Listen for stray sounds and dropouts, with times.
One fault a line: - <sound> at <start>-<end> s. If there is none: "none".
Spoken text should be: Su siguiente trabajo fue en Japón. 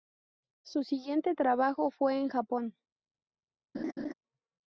- laugh at 3.7-4.1 s